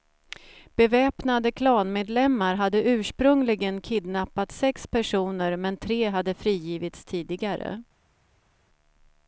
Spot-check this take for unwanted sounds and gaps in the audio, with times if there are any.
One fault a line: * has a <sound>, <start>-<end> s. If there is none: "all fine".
all fine